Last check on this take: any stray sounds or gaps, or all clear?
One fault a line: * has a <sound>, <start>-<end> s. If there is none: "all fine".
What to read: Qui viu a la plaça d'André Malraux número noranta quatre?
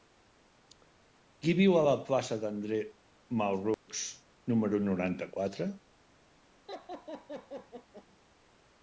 * has a dropout, 3.7-3.9 s
* has a laugh, 6.7-8.1 s